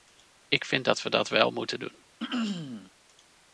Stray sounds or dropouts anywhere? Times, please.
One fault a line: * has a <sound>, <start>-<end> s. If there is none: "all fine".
* has a throat clearing, 2.2-2.9 s